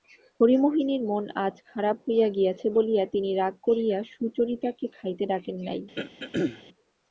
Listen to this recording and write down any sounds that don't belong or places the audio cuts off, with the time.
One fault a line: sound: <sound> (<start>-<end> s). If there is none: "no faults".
sound: throat clearing (6.0-6.6 s)